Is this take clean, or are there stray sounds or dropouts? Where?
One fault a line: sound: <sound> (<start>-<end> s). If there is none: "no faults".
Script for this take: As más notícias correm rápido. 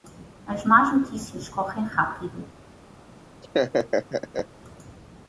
sound: laugh (3.4-4.5 s)